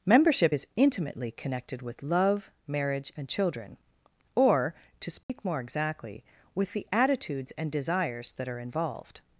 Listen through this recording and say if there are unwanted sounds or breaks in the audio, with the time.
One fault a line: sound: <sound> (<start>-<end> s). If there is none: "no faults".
sound: dropout (5.2-5.3 s)